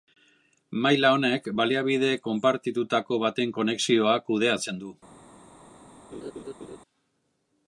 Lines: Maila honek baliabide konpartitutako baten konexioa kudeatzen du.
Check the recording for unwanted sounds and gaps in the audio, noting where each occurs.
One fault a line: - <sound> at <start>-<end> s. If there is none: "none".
- laugh at 6.1-6.8 s